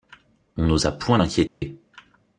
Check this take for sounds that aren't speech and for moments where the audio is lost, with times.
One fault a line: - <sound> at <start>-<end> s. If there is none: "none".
- dropout at 1.5-1.6 s